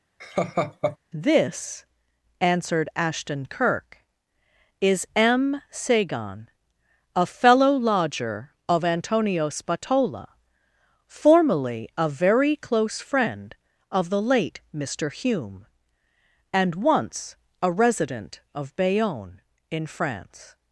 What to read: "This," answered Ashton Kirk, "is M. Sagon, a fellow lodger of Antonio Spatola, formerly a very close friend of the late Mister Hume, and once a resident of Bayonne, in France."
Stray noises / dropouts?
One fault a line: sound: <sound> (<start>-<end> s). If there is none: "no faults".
sound: laugh (0.2-1.0 s)